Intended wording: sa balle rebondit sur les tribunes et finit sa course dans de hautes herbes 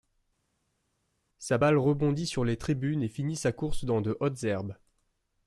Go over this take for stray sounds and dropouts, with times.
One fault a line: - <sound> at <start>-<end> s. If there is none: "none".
none